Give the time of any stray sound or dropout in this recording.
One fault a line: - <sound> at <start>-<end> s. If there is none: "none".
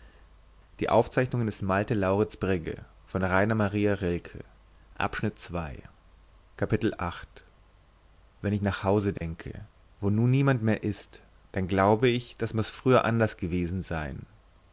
- dropout at 9.2-9.2 s